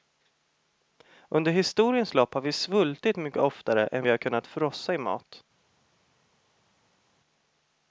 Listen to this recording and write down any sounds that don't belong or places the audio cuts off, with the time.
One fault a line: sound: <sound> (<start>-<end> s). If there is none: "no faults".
no faults